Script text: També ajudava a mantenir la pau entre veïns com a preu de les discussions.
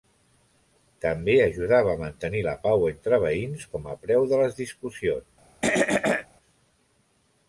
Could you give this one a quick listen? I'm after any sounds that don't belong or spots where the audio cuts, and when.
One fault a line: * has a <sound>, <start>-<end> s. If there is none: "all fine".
* has a throat clearing, 5.6-6.3 s